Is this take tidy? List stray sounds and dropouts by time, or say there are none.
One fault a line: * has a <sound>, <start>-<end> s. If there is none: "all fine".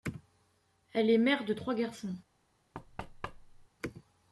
* has a thud, 2.7-3.7 s